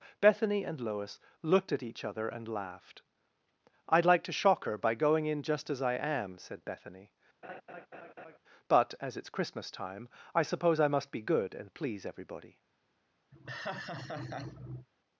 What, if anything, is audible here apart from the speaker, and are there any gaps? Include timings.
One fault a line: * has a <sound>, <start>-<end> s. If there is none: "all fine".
* has a laugh, 7.4-8.4 s
* has a laugh, 13.3-14.9 s